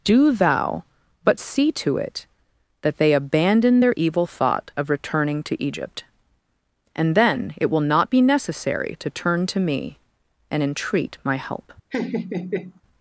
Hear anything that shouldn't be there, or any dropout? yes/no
yes